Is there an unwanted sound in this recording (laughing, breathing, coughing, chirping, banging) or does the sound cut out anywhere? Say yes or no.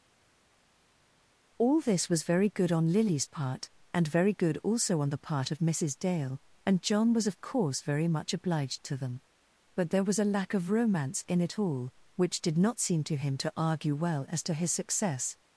no